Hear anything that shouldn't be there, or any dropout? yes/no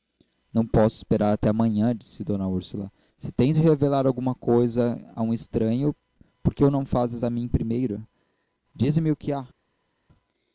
no